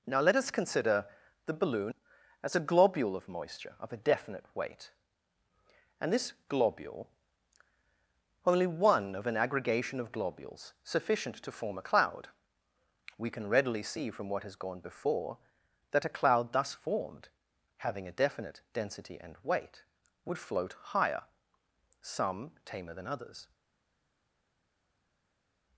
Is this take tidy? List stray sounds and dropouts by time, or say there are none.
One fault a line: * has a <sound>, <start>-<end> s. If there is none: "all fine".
all fine